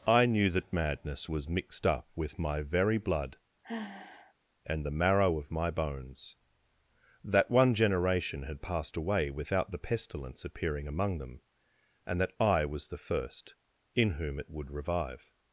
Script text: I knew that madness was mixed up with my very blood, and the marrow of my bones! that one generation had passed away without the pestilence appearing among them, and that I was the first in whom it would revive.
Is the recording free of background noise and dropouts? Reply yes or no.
no